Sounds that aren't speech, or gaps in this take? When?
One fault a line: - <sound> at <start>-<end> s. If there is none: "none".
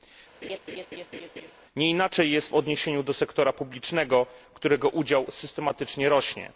- laugh at 0.4-1.5 s